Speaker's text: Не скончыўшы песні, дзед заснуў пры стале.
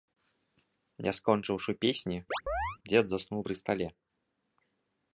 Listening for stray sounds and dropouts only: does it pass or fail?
fail